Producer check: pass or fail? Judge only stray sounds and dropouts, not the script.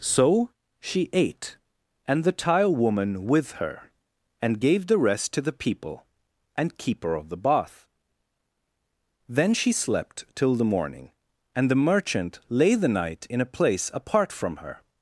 pass